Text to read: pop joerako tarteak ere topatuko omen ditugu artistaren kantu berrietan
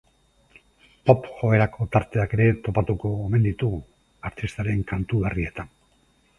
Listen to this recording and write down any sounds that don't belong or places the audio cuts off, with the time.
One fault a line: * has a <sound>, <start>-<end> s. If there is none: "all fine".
all fine